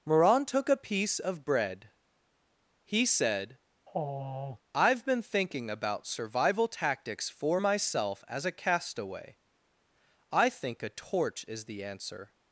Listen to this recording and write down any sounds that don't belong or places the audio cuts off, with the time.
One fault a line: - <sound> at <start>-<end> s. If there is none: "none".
- sigh at 3.9-4.6 s